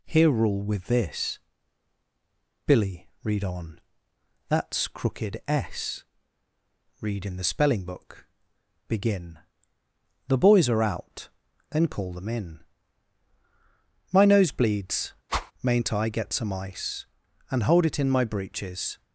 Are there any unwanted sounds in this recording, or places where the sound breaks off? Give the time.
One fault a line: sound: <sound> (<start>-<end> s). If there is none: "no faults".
sound: whoosh (15.3-15.5 s)